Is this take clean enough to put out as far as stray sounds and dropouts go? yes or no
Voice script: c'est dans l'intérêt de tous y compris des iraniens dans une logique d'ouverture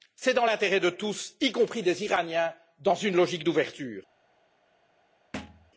no